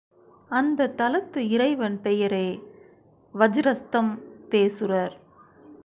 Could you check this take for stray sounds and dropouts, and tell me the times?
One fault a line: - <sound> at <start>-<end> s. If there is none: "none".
none